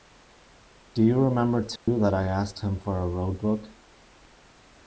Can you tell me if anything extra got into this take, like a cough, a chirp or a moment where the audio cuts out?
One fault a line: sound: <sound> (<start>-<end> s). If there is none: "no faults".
sound: dropout (1.8-1.9 s)